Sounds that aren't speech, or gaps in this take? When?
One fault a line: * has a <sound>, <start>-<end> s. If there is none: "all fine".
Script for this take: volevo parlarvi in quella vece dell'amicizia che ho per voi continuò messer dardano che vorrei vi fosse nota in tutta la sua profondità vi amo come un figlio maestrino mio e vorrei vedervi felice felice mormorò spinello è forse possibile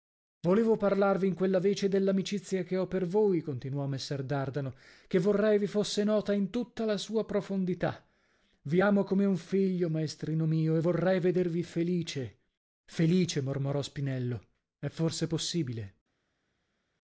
all fine